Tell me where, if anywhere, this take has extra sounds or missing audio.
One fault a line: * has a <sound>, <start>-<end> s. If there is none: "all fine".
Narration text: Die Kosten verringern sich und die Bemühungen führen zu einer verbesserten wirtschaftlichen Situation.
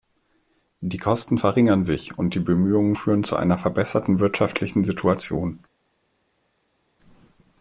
all fine